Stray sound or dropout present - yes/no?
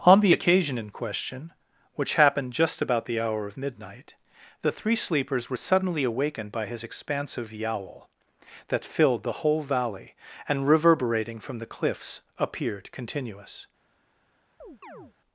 yes